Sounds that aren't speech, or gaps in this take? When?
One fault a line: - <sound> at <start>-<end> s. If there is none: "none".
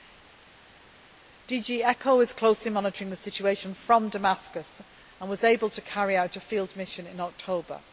none